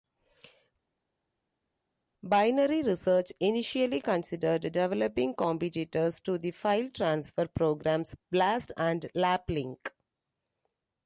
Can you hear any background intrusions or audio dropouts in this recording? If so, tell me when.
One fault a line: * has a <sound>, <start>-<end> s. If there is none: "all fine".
all fine